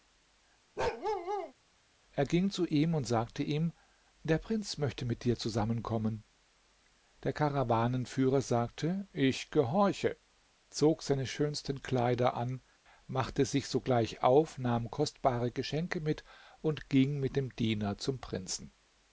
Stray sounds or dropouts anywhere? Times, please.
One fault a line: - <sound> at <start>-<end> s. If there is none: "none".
- bark at 0.8-1.5 s